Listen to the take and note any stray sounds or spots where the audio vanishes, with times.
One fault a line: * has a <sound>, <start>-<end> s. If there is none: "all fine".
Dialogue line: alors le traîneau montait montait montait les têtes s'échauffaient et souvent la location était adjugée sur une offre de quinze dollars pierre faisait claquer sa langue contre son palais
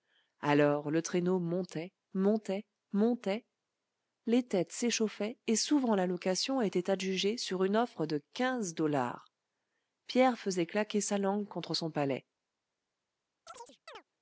* has a chirp, 13.5-14.0 s